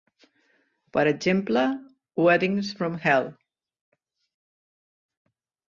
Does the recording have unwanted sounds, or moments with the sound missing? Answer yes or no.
no